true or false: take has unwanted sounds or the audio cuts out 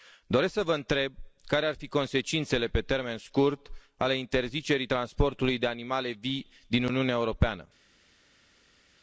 false